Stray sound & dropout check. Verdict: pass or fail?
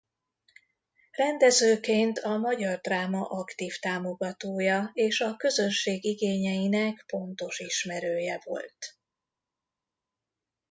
pass